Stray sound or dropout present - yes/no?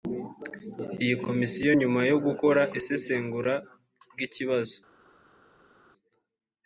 no